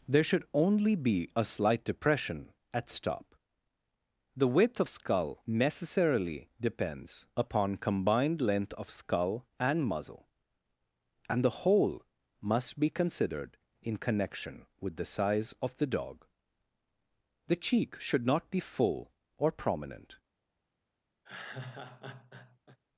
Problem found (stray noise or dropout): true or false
true